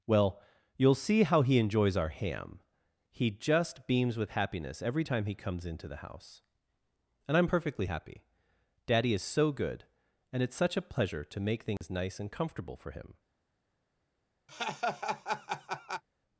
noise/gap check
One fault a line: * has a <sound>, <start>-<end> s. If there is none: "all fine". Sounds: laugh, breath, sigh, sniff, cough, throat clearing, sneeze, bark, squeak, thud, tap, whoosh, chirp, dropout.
* has a dropout, 11.8-11.8 s
* has a laugh, 14.5-16.0 s